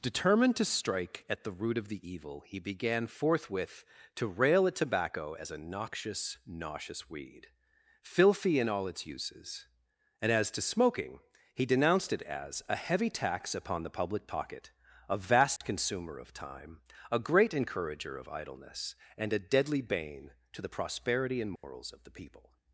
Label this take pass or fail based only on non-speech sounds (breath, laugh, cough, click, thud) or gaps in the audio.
fail